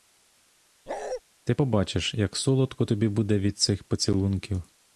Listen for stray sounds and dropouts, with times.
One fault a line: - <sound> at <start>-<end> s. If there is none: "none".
- bark at 0.9-1.2 s